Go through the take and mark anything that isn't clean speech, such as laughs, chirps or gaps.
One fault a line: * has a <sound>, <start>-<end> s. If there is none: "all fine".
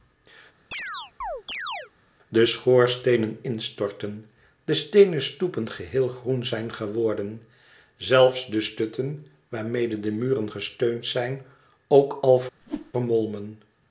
* has a chirp, 0.7-1.9 s
* has a whoosh, 12.6-12.9 s